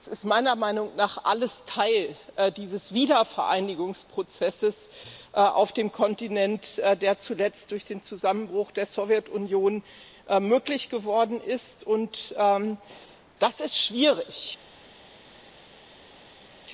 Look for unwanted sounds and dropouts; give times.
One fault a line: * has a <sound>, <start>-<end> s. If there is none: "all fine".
all fine